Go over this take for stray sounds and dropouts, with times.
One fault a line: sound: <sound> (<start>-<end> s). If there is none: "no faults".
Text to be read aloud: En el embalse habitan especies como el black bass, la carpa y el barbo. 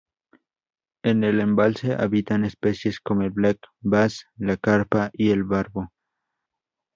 no faults